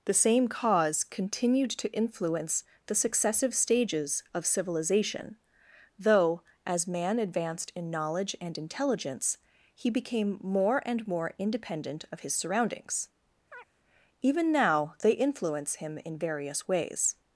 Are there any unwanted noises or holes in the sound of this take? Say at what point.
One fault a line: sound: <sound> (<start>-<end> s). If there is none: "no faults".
sound: chirp (13.5-13.7 s)